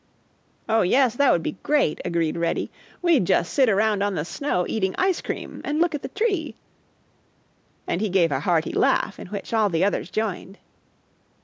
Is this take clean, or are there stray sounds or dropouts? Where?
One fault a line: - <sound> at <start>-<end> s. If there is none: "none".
none